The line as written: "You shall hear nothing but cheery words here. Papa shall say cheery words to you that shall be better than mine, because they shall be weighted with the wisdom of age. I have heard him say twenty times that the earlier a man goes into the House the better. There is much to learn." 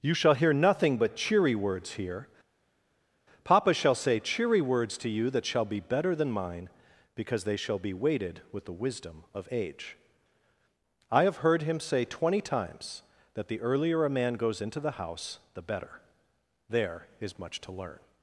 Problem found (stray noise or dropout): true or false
false